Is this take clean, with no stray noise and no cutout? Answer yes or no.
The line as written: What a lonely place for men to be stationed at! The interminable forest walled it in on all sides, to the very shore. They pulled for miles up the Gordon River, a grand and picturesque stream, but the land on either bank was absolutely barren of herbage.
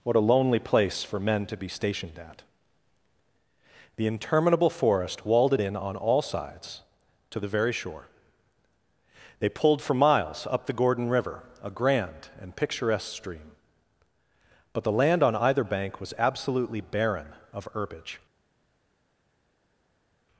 yes